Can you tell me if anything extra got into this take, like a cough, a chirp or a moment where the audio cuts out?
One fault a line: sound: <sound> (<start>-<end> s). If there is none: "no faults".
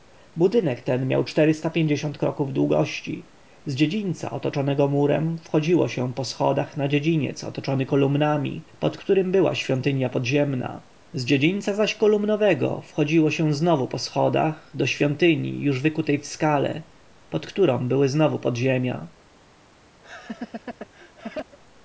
sound: laugh (20.0-21.6 s)